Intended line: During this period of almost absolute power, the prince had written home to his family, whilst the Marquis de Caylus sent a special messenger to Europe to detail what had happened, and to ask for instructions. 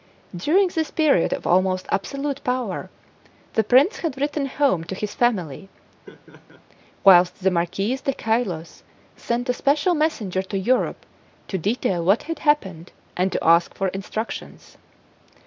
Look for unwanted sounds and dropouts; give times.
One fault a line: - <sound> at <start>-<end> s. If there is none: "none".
- laugh at 6.1-6.6 s